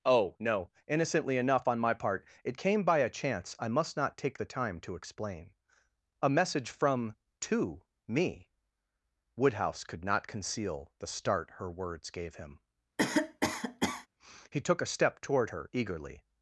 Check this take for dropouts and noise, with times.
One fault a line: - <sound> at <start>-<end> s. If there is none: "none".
- cough at 13.0-14.1 s